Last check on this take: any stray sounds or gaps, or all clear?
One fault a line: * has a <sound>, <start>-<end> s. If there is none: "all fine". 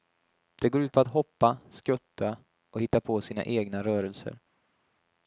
all fine